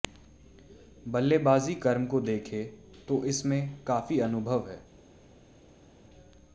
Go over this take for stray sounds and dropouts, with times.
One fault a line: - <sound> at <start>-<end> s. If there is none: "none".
none